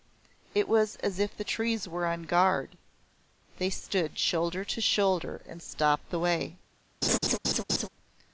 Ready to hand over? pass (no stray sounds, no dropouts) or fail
fail